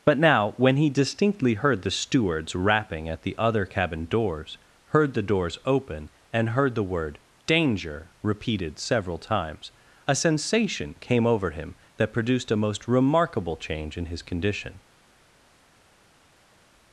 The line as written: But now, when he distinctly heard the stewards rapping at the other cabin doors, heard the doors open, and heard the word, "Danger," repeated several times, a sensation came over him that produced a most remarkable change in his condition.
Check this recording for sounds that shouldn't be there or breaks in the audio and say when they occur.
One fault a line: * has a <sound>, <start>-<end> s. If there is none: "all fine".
all fine